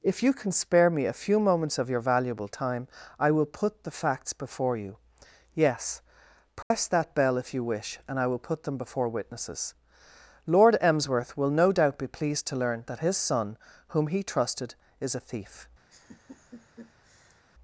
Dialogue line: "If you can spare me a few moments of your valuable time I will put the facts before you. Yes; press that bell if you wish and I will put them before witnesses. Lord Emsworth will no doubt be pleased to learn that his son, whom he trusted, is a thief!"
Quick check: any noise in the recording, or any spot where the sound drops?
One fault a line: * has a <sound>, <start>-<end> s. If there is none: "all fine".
* has a dropout, 6.6-6.7 s
* has a laugh, 15.9-17.4 s